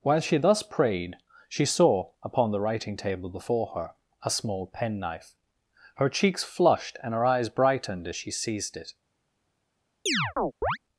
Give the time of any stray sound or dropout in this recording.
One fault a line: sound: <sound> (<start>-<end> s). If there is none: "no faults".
sound: chirp (10.1-10.8 s)